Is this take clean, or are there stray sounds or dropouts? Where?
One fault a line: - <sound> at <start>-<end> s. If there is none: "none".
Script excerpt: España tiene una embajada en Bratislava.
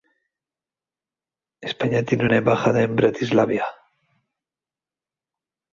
none